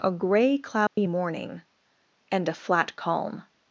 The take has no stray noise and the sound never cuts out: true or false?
false